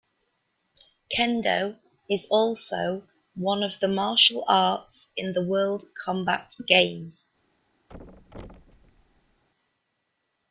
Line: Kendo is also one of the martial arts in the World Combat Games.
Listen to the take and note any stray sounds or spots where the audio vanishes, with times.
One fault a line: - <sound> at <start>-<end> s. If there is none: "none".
- thud at 7.9-9.4 s